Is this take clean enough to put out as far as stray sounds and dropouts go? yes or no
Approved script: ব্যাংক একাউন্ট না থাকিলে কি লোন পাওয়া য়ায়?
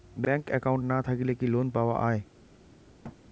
no